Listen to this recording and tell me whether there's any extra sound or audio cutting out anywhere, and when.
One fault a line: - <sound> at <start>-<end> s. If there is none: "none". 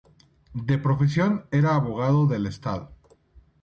none